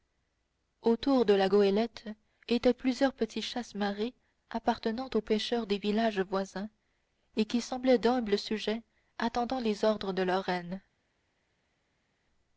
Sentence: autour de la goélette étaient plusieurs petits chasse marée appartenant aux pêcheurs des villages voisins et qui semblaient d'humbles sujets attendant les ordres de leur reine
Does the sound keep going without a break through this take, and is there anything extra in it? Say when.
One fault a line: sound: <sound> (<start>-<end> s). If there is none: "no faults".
no faults